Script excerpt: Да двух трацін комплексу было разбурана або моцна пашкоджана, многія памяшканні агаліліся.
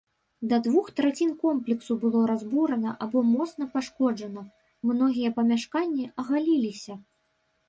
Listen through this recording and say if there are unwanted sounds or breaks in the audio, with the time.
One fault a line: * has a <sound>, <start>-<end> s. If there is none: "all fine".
all fine